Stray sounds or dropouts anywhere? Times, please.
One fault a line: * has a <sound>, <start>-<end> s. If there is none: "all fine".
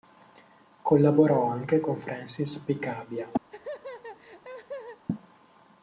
* has a laugh, 3.5-5.1 s